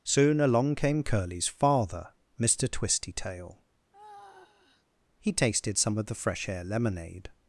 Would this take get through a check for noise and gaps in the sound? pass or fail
fail